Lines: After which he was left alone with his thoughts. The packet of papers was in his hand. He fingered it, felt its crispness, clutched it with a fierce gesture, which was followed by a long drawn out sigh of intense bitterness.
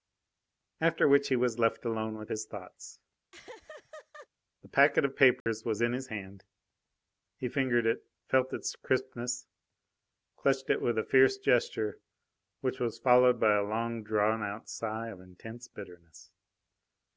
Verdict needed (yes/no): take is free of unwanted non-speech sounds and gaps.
no